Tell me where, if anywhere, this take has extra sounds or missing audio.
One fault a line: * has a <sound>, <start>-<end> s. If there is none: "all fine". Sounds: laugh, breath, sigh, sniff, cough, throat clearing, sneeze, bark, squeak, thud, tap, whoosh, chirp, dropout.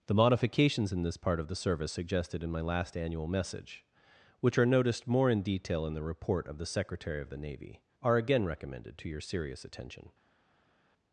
all fine